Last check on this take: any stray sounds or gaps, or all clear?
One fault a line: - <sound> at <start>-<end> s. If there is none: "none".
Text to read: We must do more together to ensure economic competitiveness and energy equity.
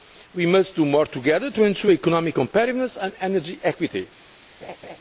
- laugh at 4.6-5.0 s